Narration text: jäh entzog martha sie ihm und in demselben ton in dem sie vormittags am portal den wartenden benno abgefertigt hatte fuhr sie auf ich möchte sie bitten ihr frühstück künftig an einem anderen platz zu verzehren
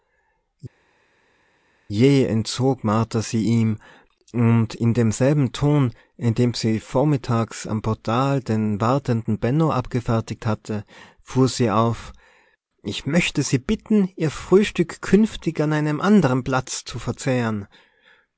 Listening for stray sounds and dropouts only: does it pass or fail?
pass